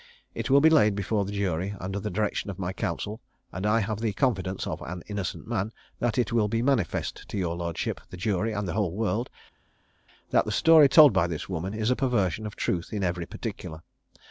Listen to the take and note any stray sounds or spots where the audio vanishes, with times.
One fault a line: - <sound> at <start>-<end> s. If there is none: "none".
none